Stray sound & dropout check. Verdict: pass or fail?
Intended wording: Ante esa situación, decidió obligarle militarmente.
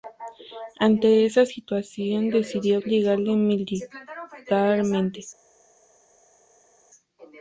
pass